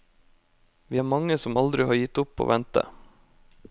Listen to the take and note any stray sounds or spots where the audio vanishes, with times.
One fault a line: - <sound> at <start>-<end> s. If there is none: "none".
none